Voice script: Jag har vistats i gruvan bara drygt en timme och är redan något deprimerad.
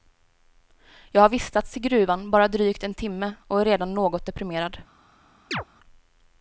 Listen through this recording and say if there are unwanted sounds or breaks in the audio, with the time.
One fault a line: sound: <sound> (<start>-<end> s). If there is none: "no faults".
sound: chirp (5.5-5.6 s)